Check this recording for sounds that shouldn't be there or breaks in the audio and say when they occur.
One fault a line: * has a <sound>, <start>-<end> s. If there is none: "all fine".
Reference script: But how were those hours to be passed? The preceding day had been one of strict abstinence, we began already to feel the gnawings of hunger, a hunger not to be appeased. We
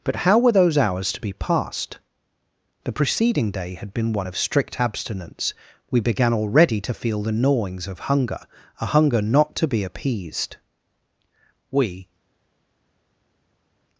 all fine